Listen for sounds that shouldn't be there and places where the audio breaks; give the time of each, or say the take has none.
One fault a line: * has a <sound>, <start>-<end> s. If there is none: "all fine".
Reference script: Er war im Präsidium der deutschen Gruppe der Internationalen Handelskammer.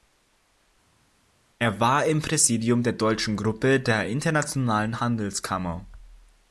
all fine